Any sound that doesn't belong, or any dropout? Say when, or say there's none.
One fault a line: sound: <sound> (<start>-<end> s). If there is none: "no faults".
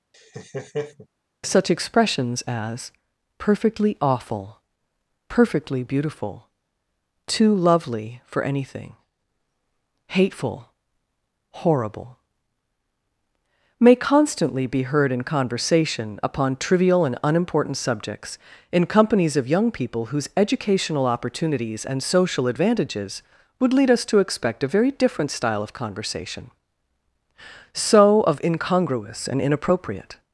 sound: laugh (0.1-1.1 s)